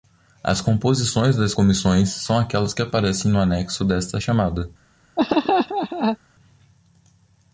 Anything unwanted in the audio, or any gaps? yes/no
yes